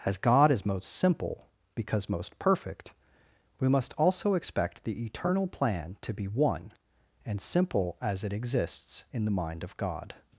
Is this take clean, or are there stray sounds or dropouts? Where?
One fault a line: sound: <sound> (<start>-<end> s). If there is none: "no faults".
no faults